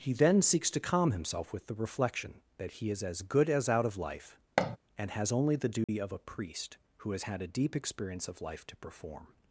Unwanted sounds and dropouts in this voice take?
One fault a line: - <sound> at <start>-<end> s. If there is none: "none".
- thud at 4.6-4.8 s
- dropout at 5.8-5.9 s